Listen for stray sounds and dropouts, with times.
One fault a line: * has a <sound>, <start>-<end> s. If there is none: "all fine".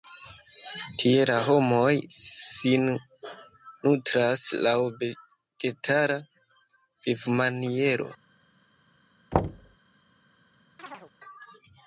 * has a thud, 9.3-9.8 s
* has a chirp, 10.8-11.1 s